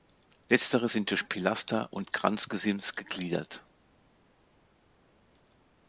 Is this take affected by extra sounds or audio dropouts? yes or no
no